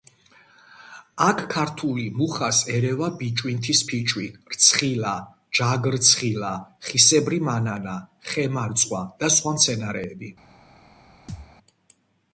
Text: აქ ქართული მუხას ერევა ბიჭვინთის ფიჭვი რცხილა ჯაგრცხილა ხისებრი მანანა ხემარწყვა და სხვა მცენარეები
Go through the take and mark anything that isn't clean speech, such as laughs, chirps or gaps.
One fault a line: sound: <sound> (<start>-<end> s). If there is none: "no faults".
sound: thud (11.3-11.5 s)